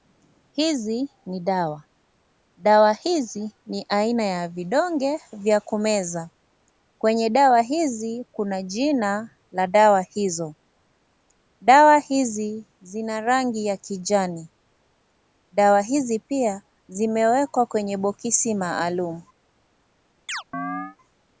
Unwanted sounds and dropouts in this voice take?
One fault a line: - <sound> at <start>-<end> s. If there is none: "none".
- chirp at 20.3-21.0 s